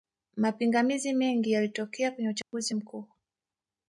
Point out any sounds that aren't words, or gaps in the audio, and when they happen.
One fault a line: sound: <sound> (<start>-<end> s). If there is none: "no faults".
sound: dropout (2.4-2.5 s)